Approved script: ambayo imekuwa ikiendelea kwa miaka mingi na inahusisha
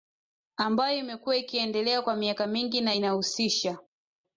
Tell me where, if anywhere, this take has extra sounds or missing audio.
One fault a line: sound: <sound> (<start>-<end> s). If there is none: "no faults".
no faults